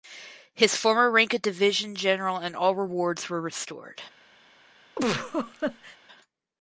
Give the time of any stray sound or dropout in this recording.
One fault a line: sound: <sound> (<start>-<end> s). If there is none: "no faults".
sound: laugh (5.0-6.0 s)